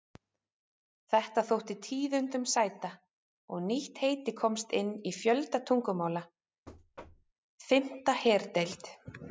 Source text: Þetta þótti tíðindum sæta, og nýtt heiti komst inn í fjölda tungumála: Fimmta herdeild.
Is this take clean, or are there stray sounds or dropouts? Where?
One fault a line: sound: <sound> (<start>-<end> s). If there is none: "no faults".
sound: thud (6.7-7.3 s)